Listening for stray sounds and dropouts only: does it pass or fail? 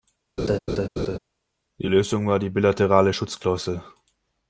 fail